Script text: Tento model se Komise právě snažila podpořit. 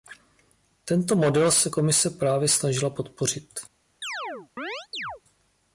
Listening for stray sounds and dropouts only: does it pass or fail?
fail